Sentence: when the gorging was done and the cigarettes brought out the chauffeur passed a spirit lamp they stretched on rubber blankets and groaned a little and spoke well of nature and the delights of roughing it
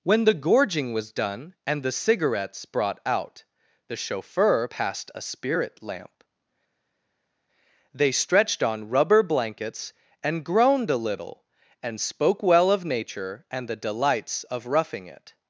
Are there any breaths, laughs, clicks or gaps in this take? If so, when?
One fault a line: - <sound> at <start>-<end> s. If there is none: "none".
none